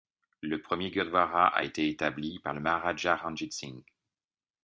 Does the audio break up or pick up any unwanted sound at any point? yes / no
no